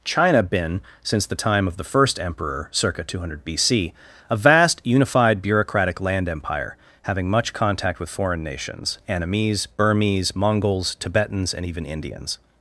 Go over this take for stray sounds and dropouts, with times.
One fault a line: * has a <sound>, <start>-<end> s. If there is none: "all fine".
all fine